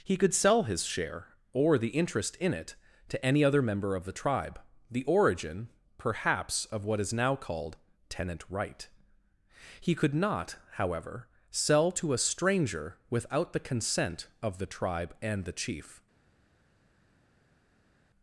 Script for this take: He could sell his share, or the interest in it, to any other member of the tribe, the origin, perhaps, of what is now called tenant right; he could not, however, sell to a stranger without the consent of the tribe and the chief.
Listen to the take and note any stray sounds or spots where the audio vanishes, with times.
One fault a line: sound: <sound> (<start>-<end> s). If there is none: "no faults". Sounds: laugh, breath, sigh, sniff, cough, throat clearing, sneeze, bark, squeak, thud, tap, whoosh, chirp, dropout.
no faults